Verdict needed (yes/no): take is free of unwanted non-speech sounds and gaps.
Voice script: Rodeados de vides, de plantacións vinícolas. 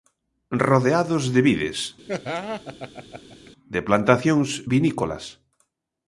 no